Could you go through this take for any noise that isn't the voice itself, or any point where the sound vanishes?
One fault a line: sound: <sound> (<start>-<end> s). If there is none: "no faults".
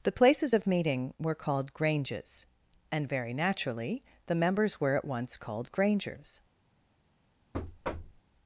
sound: thud (7.5-8.2 s)